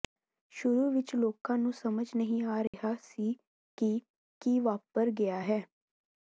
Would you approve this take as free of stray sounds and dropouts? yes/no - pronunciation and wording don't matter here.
no